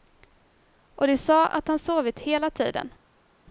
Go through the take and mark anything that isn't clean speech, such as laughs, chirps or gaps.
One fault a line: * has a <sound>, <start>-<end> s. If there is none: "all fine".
all fine